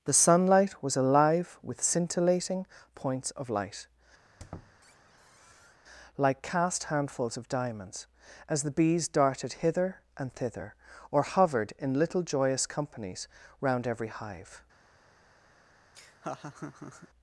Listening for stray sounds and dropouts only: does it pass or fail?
fail